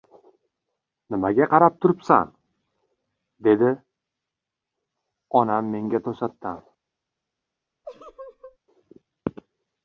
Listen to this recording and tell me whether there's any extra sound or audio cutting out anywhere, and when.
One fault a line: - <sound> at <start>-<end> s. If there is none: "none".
- laugh at 7.8-8.6 s